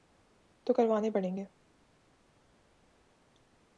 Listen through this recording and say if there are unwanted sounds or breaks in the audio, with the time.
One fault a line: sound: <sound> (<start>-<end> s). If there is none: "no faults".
no faults